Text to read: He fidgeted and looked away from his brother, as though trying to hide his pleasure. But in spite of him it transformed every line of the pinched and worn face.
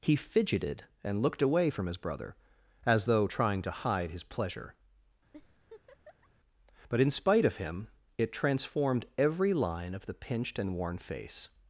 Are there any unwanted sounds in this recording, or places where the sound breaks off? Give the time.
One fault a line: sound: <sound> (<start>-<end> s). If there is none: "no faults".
sound: laugh (5.3-6.3 s)